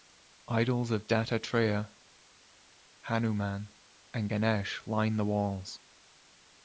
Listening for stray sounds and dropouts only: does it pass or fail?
pass